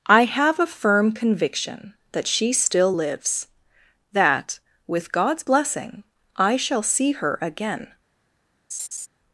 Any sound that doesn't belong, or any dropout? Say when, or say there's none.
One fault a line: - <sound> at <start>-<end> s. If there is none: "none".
- laugh at 8.7-9.1 s